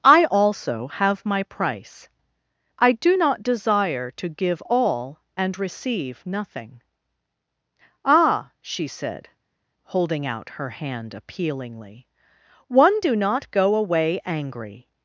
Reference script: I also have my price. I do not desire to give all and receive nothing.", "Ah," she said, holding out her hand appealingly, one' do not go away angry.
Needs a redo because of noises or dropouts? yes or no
no